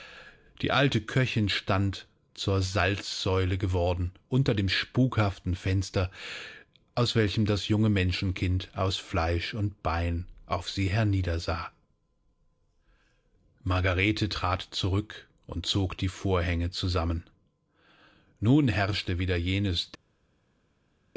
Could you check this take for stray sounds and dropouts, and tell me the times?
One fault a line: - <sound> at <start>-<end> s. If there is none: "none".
none